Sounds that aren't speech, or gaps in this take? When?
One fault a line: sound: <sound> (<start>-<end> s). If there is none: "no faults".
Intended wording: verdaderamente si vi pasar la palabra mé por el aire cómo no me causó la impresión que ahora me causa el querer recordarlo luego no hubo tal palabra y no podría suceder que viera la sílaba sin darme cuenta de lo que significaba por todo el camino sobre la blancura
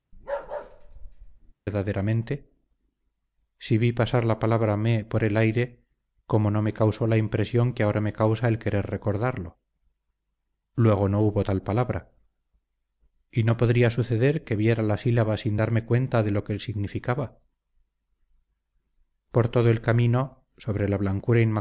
sound: bark (0.1-1.5 s)